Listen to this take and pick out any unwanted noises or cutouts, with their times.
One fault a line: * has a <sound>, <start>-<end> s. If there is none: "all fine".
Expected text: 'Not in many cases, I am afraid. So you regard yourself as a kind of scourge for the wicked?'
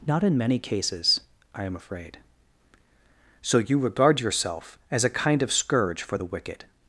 all fine